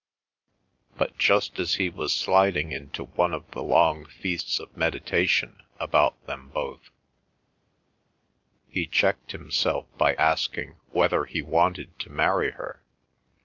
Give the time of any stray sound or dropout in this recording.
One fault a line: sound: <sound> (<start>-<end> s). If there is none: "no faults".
no faults